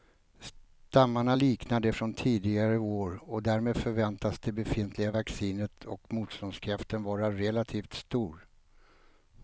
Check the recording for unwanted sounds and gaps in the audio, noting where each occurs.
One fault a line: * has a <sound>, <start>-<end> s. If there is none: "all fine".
all fine